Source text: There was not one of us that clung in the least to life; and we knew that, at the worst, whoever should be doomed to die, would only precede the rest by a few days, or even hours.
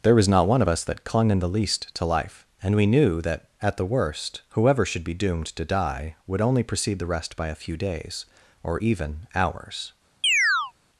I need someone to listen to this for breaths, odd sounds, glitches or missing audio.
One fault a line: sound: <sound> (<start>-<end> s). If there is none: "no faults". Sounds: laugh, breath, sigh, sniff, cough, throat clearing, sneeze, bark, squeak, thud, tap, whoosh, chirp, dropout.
sound: chirp (10.2-10.7 s)